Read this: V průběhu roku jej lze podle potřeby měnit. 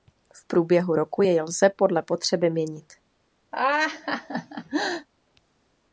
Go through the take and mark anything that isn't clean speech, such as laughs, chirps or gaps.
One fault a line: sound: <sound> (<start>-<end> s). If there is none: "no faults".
sound: laugh (3.5-5.1 s)